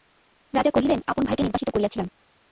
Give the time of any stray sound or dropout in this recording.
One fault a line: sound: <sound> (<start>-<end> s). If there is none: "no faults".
no faults